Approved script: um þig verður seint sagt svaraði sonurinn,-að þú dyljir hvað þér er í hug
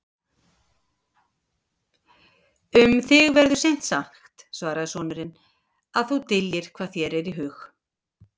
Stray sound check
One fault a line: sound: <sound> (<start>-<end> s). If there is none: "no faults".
no faults